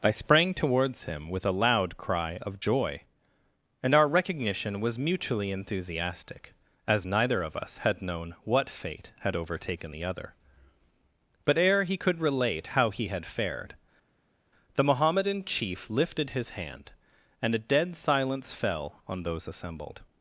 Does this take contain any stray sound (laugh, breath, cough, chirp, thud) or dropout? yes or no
no